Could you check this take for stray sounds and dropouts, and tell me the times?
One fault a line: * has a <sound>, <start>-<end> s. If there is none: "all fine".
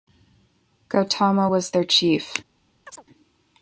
* has a chirp, 2.9-3.0 s